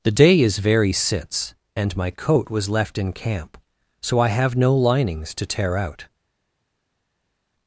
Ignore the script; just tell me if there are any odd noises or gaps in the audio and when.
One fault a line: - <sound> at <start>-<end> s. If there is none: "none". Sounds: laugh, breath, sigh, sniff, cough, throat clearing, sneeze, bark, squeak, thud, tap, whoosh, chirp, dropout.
none